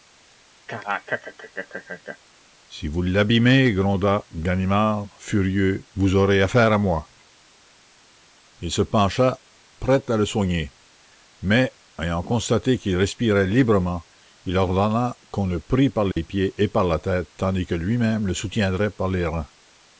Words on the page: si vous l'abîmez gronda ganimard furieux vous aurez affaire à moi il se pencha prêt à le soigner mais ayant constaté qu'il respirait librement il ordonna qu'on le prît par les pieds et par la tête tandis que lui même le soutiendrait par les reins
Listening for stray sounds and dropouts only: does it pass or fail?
fail